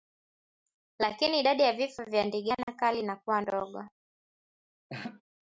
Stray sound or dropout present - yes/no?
yes